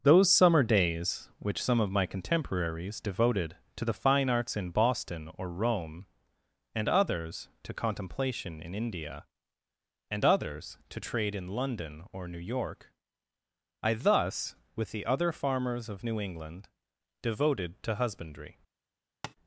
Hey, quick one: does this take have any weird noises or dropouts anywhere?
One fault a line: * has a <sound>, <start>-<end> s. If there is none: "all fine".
* has a tap, 19.2-19.4 s